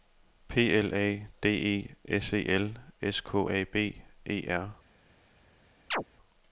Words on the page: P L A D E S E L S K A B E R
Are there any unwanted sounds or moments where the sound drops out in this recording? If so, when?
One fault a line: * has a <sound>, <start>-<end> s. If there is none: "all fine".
* has a chirp, 5.9-6.0 s